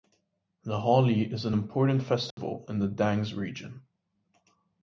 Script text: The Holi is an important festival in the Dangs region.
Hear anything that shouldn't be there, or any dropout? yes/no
yes